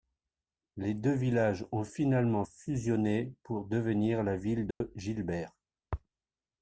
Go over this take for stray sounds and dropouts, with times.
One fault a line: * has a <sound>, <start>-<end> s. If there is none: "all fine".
* has a dropout, 4.7-4.8 s